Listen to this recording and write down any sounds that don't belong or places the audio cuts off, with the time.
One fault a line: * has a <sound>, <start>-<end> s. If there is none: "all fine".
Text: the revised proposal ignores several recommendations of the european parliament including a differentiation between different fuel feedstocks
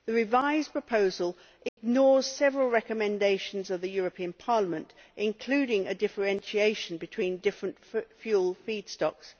* has a dropout, 1.7-1.8 s